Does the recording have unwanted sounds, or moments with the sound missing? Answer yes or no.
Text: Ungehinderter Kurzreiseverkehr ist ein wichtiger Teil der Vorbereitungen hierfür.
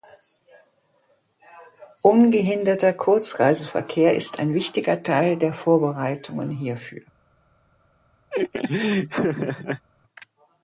yes